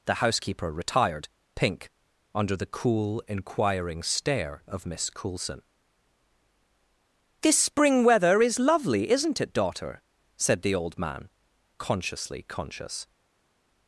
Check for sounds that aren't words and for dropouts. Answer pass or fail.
pass